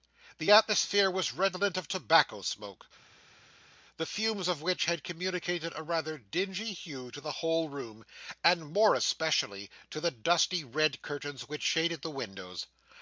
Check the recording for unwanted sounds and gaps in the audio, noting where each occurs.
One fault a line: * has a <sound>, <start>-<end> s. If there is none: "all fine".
all fine